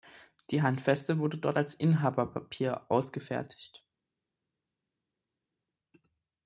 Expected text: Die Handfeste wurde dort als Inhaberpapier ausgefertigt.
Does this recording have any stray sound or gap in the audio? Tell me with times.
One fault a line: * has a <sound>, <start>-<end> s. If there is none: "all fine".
all fine